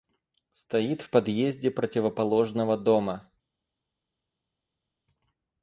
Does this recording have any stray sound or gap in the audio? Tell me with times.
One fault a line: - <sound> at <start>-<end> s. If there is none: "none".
none